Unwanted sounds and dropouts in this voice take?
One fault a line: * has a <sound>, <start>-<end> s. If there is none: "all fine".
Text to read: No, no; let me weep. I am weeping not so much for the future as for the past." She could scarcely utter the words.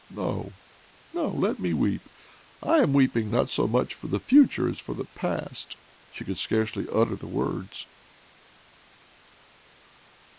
all fine